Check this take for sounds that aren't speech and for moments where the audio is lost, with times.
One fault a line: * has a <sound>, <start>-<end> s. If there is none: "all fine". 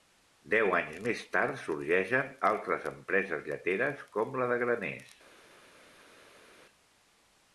all fine